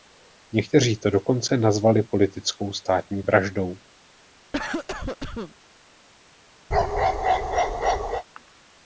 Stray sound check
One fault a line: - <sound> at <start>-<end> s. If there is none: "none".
- cough at 4.5-5.6 s
- bark at 6.7-8.2 s